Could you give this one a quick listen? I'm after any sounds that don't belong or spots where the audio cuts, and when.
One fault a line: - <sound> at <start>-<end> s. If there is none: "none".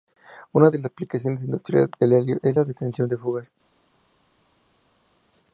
none